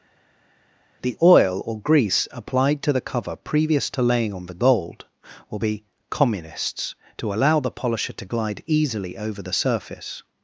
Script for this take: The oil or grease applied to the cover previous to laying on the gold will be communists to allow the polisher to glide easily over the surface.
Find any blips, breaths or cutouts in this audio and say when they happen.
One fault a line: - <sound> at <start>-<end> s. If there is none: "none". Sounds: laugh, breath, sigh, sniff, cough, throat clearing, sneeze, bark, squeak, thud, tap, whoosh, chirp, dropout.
none